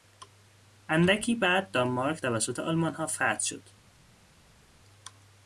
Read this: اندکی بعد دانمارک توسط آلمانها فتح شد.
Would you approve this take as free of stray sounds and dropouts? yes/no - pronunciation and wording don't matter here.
yes